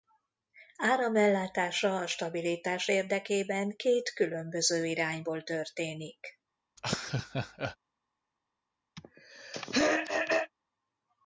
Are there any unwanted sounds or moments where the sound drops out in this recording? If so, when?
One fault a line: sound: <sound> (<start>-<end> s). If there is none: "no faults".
sound: laugh (6.8-7.8 s)
sound: throat clearing (9.0-10.5 s)